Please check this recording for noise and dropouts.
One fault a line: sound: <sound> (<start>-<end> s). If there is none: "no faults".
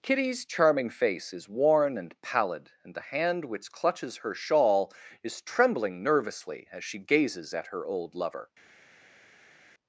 no faults